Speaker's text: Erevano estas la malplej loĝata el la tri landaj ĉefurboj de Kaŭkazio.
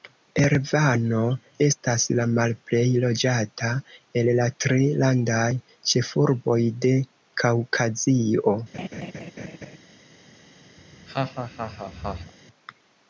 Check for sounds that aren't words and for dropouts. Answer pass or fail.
fail